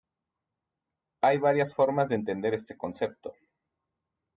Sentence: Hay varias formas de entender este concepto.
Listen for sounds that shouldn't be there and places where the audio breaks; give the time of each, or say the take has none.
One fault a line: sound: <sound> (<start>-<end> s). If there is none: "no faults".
no faults